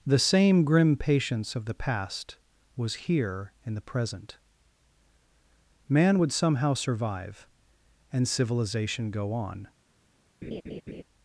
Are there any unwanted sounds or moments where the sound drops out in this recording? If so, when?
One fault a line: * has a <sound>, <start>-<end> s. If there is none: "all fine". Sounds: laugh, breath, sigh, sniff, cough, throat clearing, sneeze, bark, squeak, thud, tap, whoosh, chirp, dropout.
* has a laugh, 10.4-11.0 s